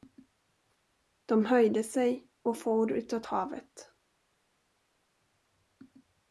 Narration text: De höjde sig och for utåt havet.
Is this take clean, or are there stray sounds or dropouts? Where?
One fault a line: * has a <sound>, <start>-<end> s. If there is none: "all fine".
all fine